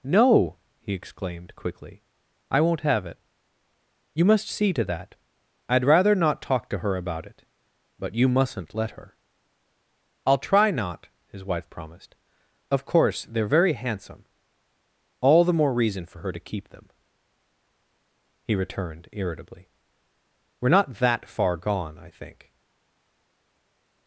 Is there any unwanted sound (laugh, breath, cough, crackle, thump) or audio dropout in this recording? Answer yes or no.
no